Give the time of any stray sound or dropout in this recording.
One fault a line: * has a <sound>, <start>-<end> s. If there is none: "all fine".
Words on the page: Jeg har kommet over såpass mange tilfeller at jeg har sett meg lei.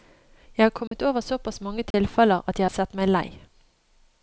* has a dropout, 0.9-0.9 s
* has a dropout, 1.9-1.9 s